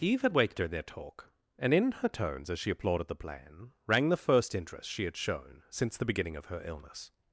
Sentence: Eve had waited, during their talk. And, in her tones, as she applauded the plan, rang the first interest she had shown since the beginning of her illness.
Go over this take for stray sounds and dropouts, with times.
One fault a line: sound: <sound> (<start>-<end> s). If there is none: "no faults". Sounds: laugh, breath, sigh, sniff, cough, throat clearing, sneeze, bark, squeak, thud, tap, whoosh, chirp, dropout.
no faults